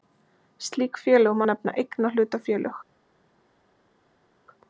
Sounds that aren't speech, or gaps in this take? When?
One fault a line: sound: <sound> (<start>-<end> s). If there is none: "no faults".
no faults